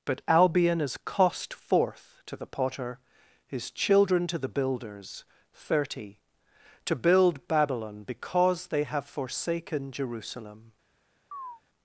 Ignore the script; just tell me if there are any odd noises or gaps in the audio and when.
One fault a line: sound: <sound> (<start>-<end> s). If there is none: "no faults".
sound: chirp (11.3-11.6 s)